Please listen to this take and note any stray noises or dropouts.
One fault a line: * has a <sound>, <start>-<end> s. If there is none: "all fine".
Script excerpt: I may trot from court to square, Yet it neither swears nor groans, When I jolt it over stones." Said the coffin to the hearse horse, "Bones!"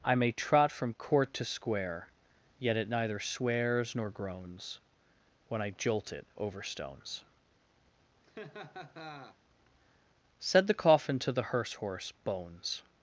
* has a laugh, 8.2-9.4 s